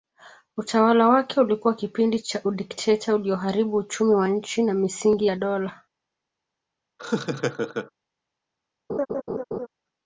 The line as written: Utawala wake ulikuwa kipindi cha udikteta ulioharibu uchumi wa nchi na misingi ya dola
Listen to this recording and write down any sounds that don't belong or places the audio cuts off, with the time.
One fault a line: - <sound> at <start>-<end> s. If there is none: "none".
- laugh at 7.0-7.9 s
- laugh at 8.9-9.7 s